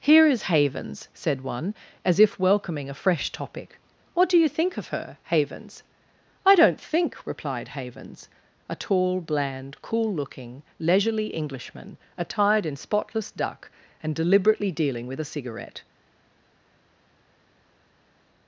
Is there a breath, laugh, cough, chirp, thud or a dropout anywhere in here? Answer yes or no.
no